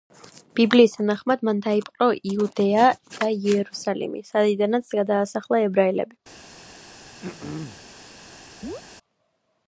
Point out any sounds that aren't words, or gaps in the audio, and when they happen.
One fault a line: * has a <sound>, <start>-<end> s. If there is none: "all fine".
* has a throat clearing, 7.2-7.8 s
* has a chirp, 8.6-8.8 s